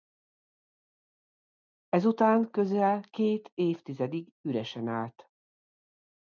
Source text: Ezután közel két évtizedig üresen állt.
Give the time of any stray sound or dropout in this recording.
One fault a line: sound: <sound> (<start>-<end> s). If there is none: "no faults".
no faults